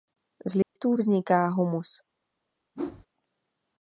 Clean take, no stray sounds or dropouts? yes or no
no